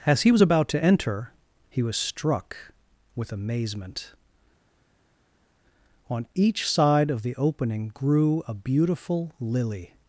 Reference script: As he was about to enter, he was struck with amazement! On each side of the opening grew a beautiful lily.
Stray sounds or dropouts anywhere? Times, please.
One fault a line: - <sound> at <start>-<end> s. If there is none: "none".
none